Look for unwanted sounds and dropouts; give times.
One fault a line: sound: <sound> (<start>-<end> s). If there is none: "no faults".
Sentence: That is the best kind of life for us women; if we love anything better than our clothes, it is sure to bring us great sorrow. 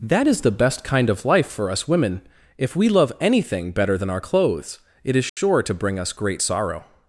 sound: dropout (5.3-5.4 s)